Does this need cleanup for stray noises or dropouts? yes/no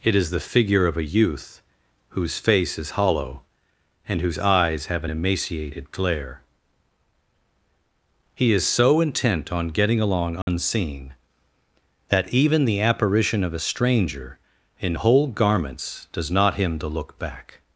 yes